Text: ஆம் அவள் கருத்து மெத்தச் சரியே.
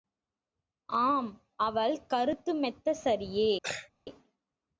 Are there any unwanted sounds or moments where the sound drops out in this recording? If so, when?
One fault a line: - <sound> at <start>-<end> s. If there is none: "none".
- throat clearing at 3.6-3.9 s